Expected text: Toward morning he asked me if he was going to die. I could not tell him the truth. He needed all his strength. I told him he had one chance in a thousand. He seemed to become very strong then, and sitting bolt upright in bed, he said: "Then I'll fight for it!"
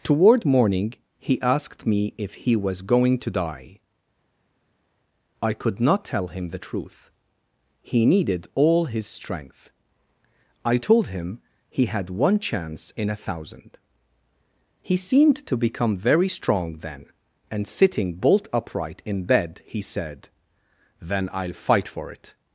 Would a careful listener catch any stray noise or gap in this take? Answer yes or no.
no